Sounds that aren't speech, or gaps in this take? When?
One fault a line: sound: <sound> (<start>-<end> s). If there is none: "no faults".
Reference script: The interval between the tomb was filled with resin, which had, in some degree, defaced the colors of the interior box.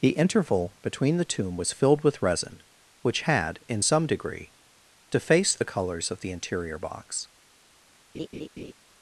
sound: laugh (8.1-8.7 s)